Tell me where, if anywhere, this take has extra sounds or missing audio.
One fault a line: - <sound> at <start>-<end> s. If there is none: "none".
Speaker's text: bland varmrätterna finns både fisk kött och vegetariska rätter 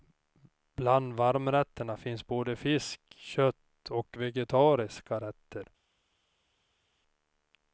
none